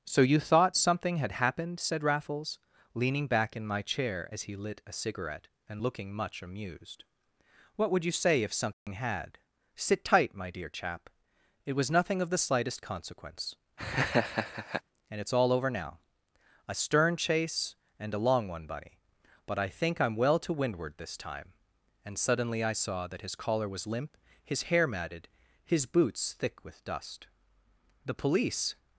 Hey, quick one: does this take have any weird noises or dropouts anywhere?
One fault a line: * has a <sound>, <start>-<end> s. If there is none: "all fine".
* has a dropout, 8.7-8.9 s
* has a laugh, 13.8-14.8 s